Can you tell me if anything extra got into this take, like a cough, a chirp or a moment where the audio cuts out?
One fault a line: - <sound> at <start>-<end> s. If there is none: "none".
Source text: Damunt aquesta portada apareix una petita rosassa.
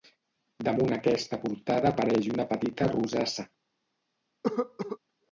- cough at 4.4-5.0 s